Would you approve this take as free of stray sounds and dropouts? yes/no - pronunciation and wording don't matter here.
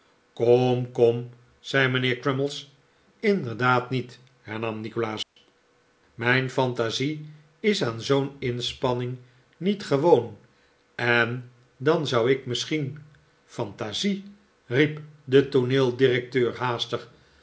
no